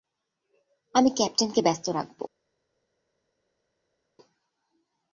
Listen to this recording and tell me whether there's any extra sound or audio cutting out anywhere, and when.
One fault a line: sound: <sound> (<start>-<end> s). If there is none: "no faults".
no faults